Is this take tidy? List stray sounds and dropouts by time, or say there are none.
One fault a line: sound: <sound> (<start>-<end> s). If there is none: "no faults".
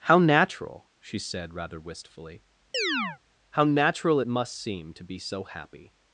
sound: chirp (2.7-3.2 s)